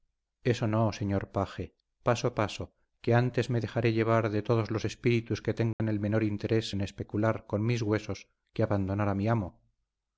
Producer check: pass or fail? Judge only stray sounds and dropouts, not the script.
fail